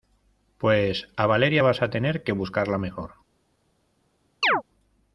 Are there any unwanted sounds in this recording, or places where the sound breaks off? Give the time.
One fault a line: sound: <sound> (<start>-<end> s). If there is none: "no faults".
sound: chirp (4.4-4.6 s)